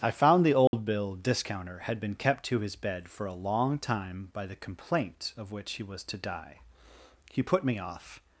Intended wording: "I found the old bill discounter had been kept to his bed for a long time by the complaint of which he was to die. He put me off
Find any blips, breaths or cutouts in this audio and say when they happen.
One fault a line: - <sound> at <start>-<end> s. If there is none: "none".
- dropout at 0.7-0.7 s